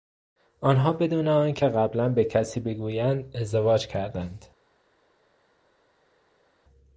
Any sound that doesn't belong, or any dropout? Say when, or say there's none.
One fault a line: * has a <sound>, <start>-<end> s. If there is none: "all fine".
all fine